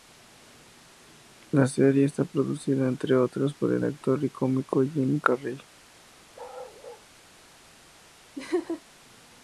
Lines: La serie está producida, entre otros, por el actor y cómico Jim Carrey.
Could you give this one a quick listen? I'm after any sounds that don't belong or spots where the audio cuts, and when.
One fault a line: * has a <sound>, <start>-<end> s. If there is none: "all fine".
* has a bark, 6.3-7.1 s
* has a laugh, 8.4-8.8 s